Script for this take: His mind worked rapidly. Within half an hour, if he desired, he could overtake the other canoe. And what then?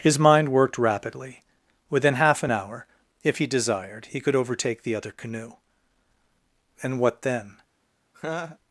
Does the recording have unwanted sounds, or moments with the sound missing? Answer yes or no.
yes